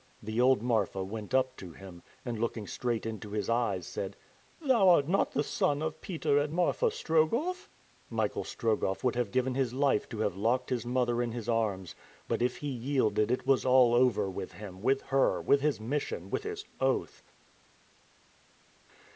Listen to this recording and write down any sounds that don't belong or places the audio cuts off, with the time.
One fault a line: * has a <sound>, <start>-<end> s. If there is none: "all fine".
all fine